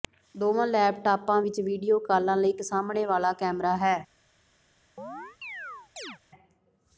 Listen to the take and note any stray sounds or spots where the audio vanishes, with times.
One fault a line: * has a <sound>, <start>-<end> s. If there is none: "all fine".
* has a chirp, 5.0-6.2 s